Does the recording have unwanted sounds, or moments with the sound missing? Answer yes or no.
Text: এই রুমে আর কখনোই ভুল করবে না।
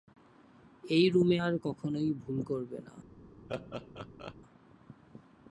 yes